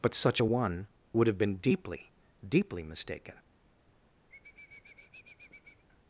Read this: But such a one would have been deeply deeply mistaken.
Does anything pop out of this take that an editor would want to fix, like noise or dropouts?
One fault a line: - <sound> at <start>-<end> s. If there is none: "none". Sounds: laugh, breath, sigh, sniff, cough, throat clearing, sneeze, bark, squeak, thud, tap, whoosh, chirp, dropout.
- sniff at 4.3-5.8 s